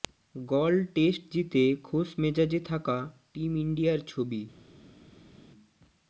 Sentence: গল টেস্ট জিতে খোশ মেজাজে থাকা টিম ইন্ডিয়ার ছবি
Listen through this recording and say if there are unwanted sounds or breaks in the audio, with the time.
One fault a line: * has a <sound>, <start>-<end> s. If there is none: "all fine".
all fine